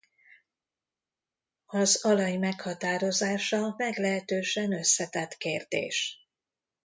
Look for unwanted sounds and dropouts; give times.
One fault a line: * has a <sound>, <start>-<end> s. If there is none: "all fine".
all fine